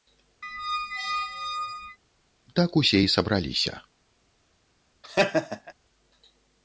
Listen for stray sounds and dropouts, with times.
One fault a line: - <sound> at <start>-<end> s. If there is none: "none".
- squeak at 0.4-2.0 s
- laugh at 5.0-5.7 s